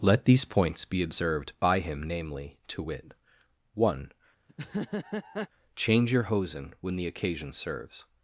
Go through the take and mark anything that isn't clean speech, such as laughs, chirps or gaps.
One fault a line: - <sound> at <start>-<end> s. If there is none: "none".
- laugh at 4.5-5.5 s